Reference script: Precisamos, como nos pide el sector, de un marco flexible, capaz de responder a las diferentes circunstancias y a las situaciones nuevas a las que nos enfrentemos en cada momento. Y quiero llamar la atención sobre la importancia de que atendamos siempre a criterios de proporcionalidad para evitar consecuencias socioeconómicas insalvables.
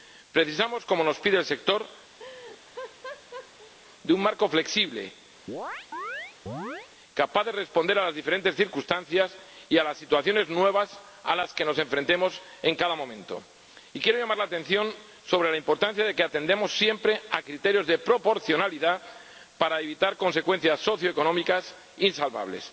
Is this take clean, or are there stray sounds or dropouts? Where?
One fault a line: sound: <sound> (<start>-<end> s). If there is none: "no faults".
sound: laugh (2.2-3.7 s)
sound: chirp (5.5-6.9 s)